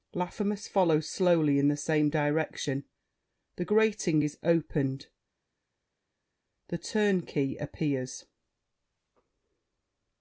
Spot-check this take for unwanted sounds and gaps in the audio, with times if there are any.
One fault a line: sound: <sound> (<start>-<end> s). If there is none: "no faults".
no faults